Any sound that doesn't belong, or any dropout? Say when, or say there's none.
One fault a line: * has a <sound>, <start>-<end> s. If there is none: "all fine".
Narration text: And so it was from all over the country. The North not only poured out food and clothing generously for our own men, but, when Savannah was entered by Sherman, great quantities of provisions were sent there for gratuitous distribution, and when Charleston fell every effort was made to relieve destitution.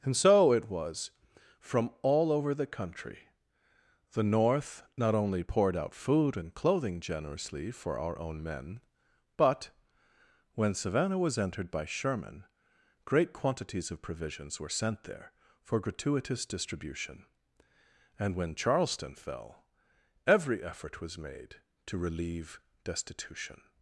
all fine